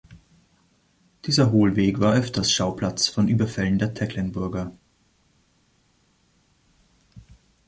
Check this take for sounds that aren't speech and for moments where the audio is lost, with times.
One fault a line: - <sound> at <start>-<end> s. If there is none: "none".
none